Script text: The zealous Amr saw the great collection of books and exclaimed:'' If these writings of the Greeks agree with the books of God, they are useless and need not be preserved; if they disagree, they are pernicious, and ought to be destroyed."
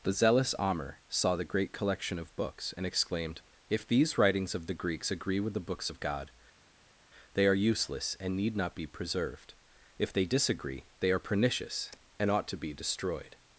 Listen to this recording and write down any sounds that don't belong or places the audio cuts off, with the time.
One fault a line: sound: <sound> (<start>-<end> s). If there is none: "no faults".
no faults